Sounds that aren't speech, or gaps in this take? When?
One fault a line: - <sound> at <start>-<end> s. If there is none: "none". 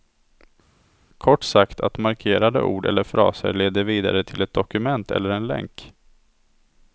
none